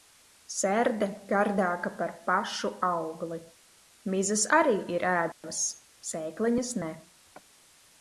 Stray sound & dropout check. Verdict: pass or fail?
fail